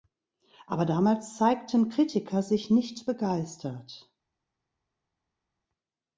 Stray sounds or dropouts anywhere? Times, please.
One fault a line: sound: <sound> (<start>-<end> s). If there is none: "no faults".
no faults